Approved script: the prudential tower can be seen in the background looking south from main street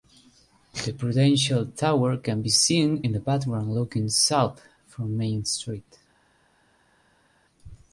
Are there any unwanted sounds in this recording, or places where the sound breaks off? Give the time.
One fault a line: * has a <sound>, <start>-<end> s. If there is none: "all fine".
all fine